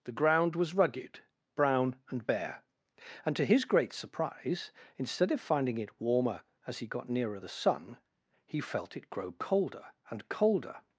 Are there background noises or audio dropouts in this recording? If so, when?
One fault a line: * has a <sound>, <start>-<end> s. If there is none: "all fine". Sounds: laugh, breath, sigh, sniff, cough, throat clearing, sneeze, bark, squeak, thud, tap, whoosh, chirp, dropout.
all fine